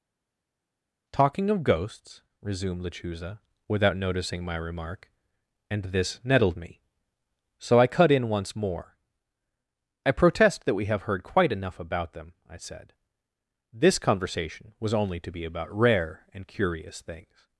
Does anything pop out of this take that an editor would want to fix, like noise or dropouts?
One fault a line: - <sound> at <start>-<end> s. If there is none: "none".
none